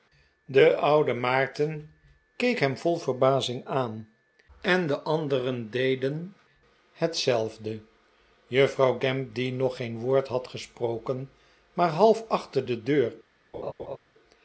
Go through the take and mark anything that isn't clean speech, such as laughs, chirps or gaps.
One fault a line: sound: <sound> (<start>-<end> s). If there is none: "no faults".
sound: laugh (13.5-14.0 s)